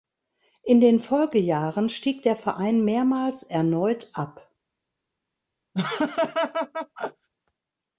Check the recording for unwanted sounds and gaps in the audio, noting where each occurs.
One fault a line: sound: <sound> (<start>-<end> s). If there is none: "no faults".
sound: laugh (5.7-7.3 s)